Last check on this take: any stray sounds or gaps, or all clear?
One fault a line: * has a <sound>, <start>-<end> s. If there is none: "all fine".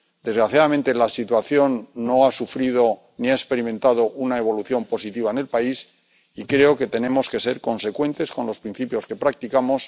all fine